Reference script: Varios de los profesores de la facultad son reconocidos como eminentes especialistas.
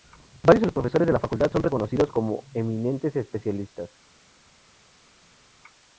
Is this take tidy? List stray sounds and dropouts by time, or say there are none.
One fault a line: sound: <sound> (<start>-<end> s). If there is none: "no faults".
no faults